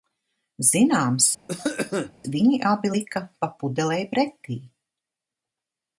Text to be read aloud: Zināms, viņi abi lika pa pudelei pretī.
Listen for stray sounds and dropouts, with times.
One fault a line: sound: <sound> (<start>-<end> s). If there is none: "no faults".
sound: cough (1.5-2.1 s)